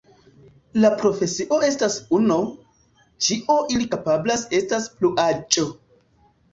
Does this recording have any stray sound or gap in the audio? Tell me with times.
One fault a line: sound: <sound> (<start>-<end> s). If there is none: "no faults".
no faults